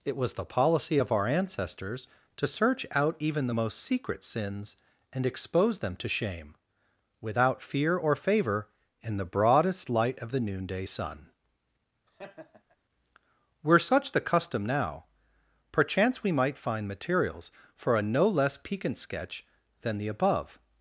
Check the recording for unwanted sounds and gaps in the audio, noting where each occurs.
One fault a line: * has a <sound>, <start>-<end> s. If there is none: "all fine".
* has a laugh, 12.1-12.8 s